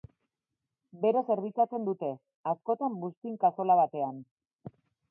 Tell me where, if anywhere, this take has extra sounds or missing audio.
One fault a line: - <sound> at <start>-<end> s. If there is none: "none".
none